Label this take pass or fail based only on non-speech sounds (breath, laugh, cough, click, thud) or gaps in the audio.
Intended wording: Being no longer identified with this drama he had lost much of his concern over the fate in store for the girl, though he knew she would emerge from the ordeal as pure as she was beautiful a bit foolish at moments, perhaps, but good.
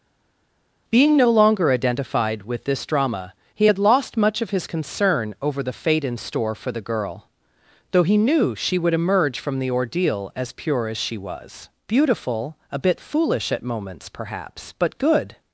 pass